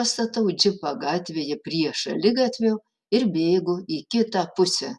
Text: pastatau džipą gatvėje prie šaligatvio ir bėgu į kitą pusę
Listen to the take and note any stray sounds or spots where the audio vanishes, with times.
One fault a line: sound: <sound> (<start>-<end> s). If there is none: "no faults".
no faults